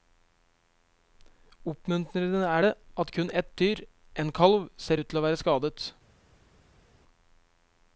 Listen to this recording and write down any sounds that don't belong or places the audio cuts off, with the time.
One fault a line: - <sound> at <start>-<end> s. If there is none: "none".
none